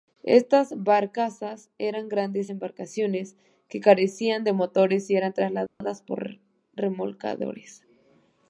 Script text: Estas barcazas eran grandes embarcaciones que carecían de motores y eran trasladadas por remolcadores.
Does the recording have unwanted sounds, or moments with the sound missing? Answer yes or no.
yes